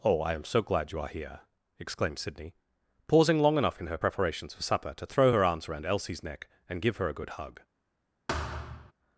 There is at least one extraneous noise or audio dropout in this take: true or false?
true